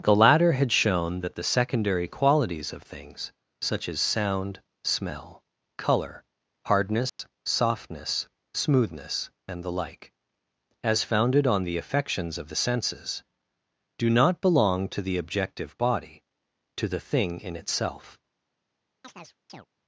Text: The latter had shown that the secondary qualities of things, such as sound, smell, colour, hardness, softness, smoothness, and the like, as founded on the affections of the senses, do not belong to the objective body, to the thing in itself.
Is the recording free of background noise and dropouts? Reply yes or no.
no